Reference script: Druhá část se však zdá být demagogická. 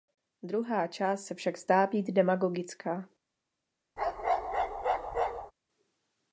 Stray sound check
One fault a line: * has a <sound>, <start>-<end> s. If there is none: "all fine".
* has a bark, 4.0-5.5 s